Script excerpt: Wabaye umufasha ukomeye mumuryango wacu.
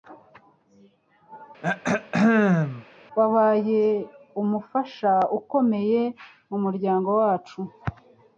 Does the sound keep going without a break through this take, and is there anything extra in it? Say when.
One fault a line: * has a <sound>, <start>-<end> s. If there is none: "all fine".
* has a throat clearing, 1.6-2.8 s